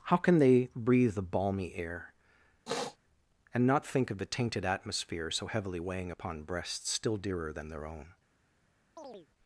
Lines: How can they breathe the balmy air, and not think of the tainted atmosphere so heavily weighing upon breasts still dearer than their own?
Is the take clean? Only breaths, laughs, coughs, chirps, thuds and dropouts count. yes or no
no